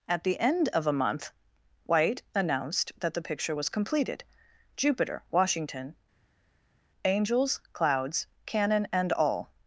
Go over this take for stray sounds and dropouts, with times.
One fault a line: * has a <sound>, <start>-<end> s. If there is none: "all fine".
all fine